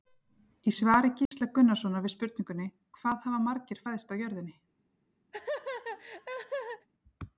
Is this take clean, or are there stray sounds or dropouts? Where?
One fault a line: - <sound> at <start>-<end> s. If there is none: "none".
- dropout at 1.3-1.3 s
- laugh at 5.3-6.9 s